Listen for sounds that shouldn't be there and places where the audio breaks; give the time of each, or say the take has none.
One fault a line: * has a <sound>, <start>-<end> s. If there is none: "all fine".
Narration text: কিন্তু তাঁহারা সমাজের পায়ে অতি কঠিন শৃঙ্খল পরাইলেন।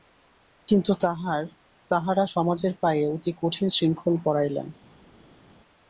all fine